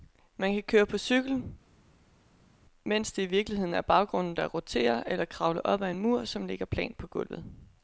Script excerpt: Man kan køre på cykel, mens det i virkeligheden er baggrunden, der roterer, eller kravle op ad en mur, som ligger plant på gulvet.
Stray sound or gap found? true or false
false